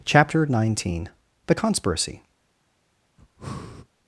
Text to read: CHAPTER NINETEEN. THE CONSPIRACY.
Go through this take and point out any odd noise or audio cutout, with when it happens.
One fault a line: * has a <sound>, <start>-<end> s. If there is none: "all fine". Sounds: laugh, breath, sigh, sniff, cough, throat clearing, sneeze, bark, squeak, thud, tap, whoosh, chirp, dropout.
* has a breath, 3.2-3.9 s